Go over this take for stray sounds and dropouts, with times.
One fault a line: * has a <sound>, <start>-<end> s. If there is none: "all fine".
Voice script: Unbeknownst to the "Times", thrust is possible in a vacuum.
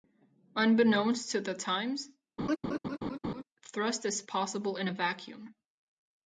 * has a laugh, 2.4-3.4 s